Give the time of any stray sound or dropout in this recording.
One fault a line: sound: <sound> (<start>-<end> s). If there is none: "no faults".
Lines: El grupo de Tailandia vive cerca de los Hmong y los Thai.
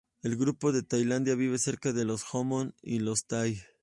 no faults